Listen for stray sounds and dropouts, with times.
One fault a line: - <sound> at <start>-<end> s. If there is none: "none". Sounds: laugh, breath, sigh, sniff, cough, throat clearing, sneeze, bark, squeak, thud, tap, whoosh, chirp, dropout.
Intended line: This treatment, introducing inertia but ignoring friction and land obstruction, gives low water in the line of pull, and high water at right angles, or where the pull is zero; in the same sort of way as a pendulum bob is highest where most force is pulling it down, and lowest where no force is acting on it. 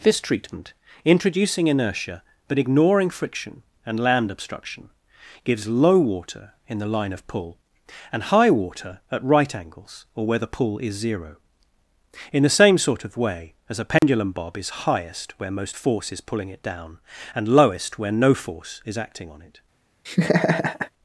- dropout at 14.0-14.0 s
- laugh at 20.1-20.9 s